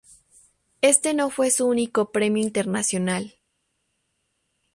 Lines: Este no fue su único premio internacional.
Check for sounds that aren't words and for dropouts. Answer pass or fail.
pass